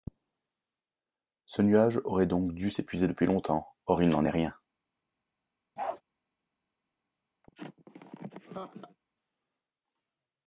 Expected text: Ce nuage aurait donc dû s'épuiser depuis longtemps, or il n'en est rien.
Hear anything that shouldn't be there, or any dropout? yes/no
yes